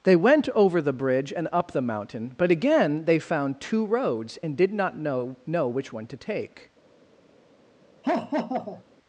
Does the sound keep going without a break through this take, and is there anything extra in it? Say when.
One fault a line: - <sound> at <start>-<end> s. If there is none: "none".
- laugh at 8.0-8.8 s